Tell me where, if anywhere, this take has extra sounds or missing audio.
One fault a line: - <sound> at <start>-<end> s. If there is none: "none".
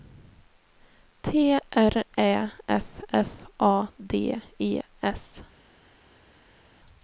none